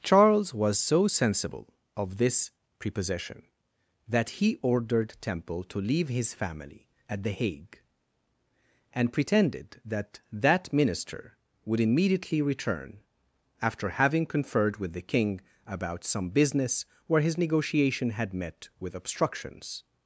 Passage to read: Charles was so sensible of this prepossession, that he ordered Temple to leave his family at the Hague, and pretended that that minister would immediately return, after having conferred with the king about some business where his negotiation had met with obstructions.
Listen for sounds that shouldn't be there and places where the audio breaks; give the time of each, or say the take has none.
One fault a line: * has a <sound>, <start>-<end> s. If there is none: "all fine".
all fine